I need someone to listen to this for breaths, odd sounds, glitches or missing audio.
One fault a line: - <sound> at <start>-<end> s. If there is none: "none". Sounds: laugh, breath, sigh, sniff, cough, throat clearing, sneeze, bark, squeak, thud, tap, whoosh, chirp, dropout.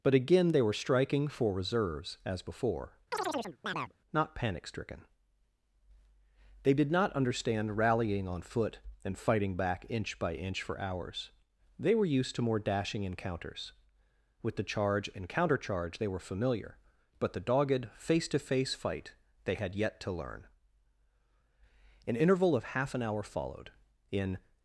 - chirp at 3.1-3.9 s